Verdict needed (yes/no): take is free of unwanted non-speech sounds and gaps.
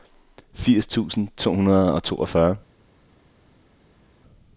yes